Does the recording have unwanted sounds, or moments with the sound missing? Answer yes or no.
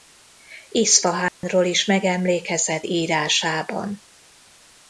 yes